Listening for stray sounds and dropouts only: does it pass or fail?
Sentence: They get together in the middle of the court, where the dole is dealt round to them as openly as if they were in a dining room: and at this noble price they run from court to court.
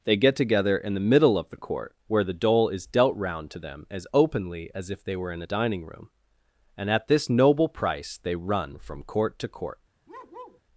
fail